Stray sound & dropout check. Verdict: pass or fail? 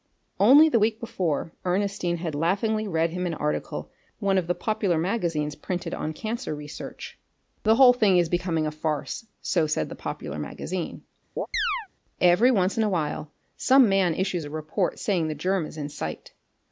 fail